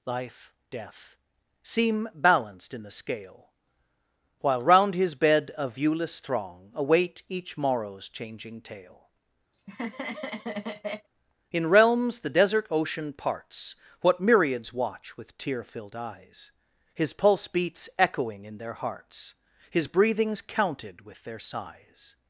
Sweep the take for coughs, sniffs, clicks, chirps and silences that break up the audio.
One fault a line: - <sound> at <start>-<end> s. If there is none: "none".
- laugh at 9.5-11.1 s